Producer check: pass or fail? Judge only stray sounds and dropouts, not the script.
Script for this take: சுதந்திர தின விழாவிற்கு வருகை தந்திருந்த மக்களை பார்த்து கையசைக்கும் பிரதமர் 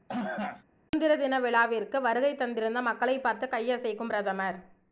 fail